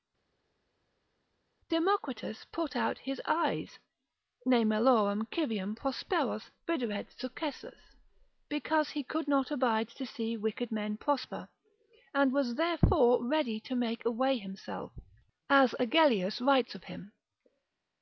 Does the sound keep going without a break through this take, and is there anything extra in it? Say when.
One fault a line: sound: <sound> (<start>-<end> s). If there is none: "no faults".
no faults